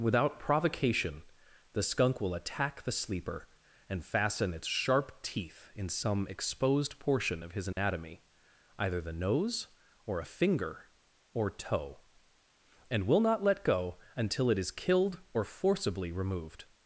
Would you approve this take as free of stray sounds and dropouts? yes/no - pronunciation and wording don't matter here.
no